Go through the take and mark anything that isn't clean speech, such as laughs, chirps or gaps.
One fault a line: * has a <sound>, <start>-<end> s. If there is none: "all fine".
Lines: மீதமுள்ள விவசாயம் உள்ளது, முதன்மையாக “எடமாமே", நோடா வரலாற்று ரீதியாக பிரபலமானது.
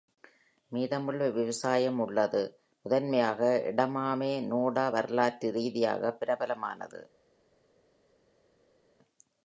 all fine